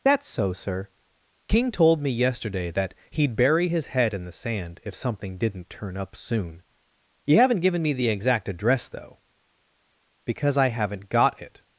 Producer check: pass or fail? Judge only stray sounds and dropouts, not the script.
pass